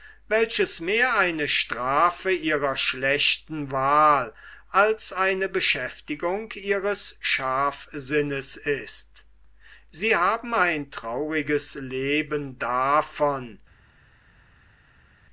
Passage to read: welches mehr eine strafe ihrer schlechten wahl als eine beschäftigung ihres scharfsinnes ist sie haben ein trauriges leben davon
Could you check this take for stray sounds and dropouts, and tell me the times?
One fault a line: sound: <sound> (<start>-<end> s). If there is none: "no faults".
no faults